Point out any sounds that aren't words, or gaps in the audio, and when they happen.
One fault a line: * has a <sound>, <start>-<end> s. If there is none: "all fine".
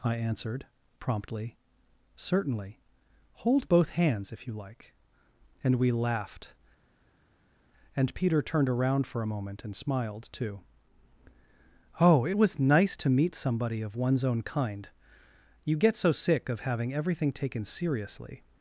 all fine